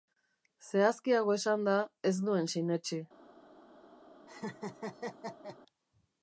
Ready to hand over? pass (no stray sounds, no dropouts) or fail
fail